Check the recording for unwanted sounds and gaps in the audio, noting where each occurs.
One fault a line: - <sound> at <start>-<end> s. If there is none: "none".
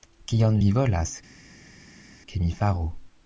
none